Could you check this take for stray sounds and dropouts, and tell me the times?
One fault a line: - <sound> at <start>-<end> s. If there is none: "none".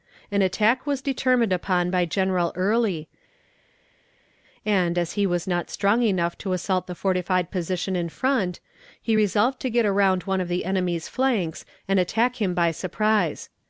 none